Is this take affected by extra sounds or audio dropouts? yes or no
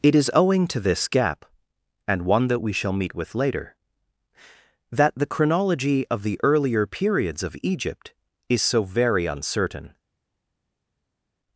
no